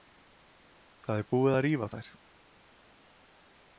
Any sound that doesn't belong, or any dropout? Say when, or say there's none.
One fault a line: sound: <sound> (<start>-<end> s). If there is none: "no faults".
no faults